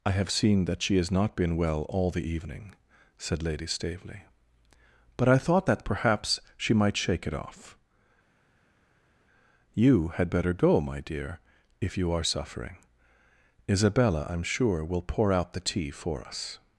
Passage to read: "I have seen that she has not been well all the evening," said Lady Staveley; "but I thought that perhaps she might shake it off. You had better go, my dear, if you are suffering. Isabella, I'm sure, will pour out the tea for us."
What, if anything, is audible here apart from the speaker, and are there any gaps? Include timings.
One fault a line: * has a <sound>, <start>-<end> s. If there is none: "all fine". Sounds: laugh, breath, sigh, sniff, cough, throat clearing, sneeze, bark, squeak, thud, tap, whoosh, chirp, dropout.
all fine